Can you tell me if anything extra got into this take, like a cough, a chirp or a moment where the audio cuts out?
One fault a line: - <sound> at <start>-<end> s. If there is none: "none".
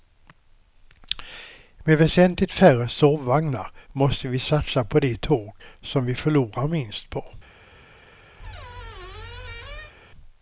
- squeak at 8.4-9.9 s